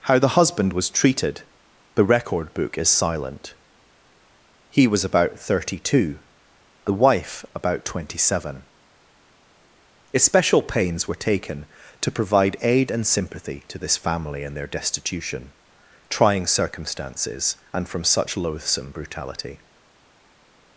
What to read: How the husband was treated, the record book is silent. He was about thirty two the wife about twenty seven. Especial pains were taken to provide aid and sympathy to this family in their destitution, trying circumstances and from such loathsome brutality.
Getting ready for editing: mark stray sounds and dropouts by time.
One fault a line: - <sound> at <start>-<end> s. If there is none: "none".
none